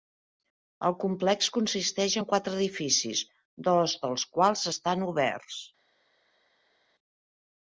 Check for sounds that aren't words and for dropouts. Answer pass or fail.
pass